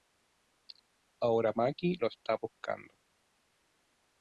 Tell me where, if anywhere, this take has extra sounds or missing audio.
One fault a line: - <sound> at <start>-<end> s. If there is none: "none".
none